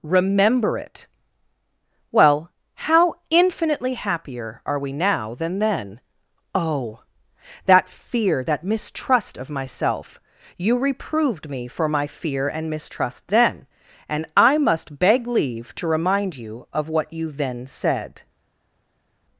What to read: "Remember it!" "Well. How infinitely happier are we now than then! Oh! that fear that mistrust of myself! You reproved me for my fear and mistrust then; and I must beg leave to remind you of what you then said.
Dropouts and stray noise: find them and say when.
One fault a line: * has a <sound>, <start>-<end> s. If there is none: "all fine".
all fine